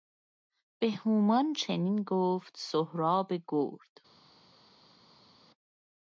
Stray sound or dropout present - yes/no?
no